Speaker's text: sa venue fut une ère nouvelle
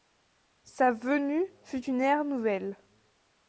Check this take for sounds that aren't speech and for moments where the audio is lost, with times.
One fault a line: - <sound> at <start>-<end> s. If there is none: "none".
none